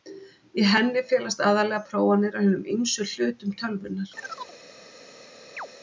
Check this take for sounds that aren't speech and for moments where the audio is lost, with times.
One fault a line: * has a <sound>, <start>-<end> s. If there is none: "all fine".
* has a chirp, 4.2-4.6 s
* has a chirp, 5.6-5.7 s